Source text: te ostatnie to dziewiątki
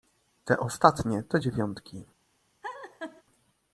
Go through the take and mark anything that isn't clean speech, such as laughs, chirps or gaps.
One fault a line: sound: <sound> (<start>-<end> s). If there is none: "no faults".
sound: laugh (2.6-3.2 s)